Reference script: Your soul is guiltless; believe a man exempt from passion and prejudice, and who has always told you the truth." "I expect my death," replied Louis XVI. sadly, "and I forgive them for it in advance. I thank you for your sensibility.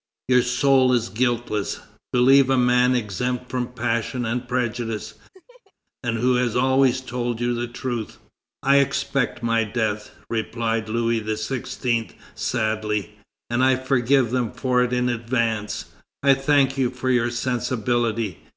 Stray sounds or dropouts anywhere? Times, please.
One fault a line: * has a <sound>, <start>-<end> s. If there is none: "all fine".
* has a laugh, 5.3-5.7 s